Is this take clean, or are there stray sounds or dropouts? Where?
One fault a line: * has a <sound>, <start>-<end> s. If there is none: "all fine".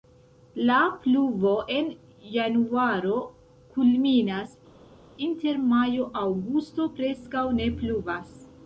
all fine